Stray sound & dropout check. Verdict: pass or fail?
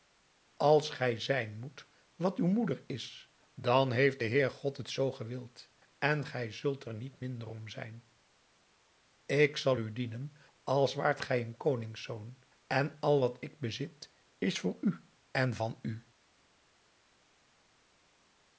pass